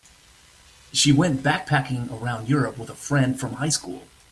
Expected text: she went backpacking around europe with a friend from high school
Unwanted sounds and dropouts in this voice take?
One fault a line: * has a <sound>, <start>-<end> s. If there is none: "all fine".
all fine